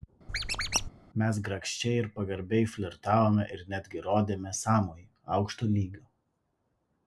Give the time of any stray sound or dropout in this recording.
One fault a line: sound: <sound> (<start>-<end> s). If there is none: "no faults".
sound: squeak (0.3-0.9 s)